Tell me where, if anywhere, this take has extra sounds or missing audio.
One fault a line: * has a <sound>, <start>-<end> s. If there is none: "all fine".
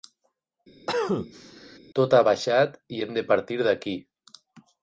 * has a cough, 0.9-1.8 s